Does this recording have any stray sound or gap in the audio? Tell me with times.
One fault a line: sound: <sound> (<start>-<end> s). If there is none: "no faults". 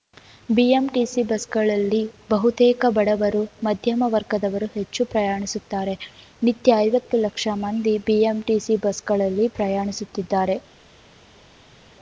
no faults